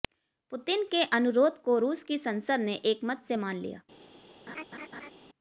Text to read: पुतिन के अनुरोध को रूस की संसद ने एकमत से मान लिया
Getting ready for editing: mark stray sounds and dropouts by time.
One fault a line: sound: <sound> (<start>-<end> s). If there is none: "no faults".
sound: laugh (4.5-5.1 s)